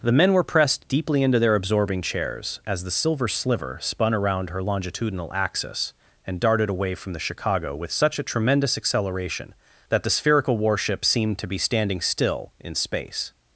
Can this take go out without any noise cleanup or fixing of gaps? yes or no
yes